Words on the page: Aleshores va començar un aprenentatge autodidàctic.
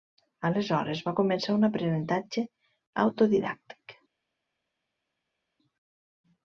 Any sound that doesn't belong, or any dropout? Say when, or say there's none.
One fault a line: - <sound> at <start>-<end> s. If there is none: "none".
none